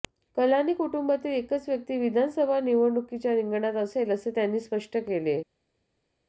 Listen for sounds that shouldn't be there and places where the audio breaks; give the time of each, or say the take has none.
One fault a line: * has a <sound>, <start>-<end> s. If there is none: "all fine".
all fine